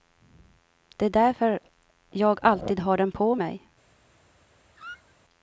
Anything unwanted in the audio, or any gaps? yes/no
yes